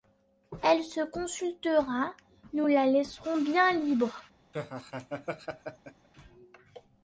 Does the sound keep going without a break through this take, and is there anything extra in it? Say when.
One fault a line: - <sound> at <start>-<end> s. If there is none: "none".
- laugh at 4.5-6.1 s